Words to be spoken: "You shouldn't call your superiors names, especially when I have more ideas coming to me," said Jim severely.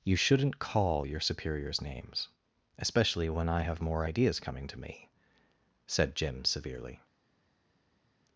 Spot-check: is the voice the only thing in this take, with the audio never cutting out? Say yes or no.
yes